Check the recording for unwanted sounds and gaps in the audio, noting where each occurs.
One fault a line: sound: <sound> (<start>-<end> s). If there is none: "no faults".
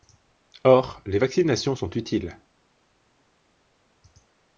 no faults